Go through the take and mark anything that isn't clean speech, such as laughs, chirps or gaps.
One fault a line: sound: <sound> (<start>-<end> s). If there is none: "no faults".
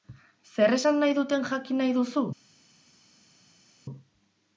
no faults